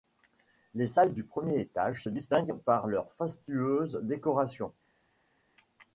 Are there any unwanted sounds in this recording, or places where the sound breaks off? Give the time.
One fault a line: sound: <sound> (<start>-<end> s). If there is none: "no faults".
no faults